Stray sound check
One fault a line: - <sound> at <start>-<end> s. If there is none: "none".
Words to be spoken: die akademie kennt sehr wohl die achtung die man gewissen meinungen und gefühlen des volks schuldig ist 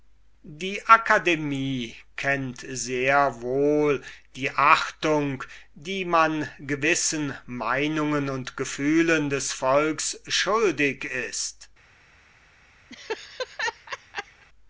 - laugh at 12.9-14.5 s